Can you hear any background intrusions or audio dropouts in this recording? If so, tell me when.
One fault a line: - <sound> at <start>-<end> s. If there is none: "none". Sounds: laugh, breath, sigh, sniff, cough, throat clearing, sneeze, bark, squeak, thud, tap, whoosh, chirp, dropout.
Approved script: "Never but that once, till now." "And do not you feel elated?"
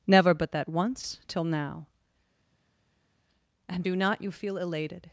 none